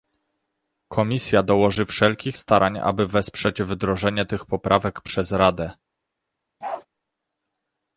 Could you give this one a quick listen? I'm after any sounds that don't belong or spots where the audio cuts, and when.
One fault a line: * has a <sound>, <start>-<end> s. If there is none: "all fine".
* has a bark, 6.6-6.9 s